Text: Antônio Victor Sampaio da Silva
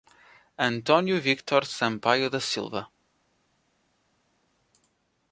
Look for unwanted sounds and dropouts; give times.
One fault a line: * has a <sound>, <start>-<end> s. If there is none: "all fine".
all fine